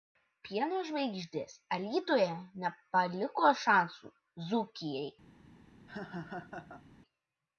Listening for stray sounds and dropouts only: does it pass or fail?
fail